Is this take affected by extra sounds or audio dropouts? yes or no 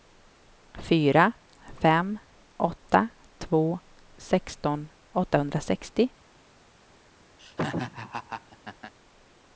yes